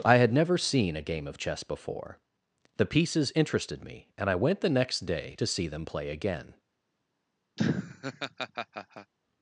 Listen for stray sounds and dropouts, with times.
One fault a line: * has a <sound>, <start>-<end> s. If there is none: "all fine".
* has a laugh, 7.6-9.1 s